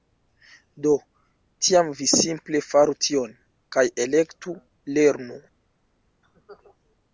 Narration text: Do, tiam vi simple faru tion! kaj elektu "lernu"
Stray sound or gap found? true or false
false